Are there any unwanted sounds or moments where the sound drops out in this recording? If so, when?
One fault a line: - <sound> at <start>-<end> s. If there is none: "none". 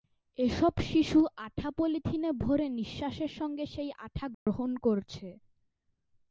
- dropout at 4.3-4.5 s